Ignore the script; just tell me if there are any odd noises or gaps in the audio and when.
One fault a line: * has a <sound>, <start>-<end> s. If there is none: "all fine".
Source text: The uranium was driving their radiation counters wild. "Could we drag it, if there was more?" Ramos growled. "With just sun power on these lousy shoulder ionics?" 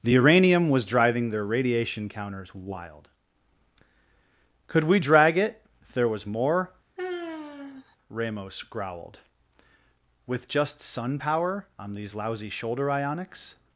* has a sigh, 7.0-8.0 s